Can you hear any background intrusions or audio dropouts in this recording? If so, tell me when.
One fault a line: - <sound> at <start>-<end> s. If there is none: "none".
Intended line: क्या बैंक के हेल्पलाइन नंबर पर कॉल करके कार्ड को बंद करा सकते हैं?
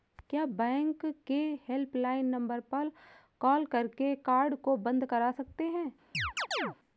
- chirp at 6.1-6.8 s